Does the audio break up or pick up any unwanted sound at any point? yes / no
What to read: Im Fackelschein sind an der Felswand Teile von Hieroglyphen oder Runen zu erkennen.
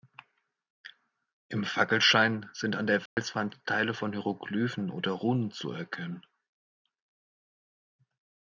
yes